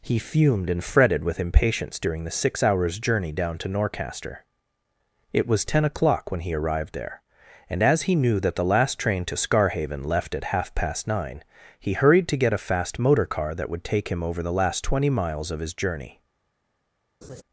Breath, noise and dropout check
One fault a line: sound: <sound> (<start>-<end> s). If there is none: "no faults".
sound: laugh (17.2-17.4 s)